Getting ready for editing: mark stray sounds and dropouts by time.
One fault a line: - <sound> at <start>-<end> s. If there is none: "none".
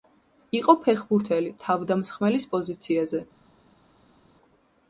none